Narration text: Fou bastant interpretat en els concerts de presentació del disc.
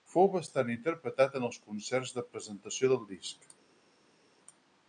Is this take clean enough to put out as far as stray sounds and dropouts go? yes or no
yes